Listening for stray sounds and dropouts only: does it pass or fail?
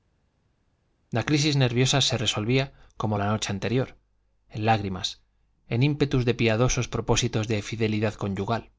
pass